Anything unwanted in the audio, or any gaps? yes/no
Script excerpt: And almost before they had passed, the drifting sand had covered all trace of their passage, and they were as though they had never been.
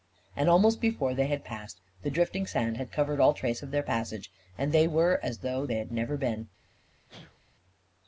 yes